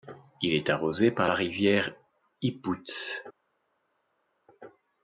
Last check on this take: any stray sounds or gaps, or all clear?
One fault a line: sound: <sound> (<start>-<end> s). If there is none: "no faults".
no faults